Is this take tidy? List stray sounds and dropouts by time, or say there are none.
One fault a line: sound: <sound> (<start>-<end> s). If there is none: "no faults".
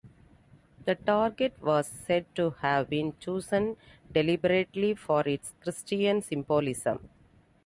no faults